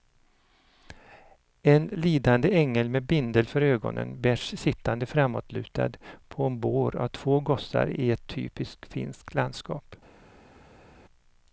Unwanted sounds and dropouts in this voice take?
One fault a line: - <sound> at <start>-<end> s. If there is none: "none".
none